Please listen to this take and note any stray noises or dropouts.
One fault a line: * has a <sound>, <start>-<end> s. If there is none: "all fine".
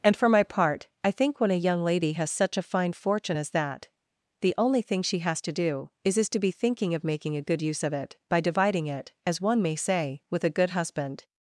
all fine